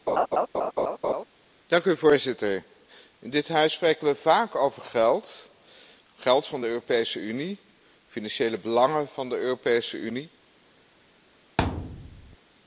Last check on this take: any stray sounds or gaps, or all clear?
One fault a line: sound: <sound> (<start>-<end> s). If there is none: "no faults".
sound: laugh (0.1-1.2 s)
sound: thud (11.6-12.4 s)